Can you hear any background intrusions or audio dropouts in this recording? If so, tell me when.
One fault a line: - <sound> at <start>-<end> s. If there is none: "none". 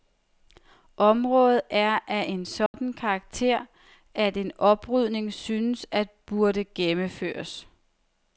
- dropout at 2.7-2.7 s